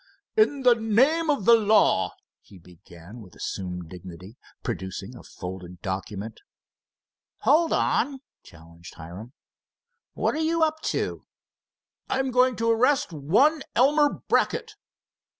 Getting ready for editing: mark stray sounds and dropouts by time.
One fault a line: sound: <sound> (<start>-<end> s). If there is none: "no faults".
no faults